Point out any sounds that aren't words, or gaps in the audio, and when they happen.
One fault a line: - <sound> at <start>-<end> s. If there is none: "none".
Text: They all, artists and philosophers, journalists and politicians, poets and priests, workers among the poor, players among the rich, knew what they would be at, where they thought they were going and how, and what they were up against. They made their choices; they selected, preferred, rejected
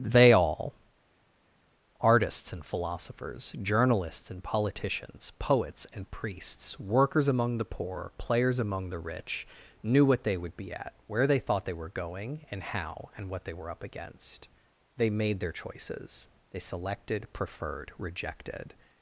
none